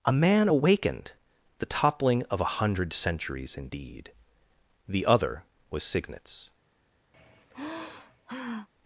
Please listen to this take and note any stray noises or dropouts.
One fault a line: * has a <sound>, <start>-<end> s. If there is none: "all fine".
* has a sigh, 7.1-8.7 s